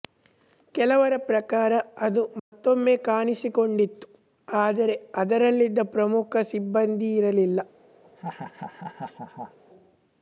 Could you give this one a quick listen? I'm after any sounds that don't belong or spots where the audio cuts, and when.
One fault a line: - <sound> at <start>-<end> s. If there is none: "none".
- dropout at 2.4-2.5 s
- laugh at 8.0-9.6 s